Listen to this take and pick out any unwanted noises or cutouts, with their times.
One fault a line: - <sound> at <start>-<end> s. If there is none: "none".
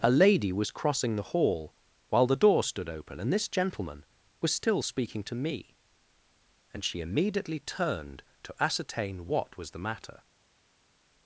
none